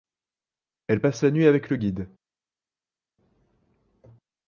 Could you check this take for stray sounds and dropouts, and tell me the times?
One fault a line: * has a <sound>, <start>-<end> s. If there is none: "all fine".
all fine